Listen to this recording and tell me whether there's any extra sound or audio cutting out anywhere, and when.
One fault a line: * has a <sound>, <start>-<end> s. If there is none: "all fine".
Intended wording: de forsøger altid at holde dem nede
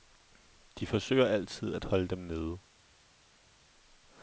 all fine